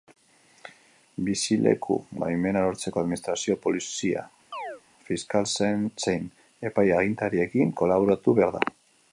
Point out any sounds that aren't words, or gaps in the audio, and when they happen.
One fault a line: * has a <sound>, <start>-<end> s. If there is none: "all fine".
* has a chirp, 4.5-4.8 s